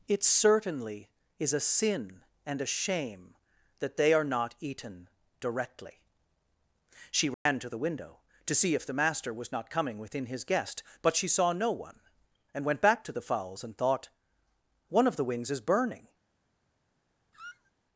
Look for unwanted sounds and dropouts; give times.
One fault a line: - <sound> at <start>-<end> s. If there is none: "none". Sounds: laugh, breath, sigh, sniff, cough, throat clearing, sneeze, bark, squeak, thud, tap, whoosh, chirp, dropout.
- dropout at 7.3-7.5 s
- squeak at 17.3-17.7 s